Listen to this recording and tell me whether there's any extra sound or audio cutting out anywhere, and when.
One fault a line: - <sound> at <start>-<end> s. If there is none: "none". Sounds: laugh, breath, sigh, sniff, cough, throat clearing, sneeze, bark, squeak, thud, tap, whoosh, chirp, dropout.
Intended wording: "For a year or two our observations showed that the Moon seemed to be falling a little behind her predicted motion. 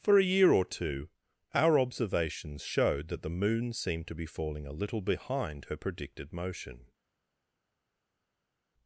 none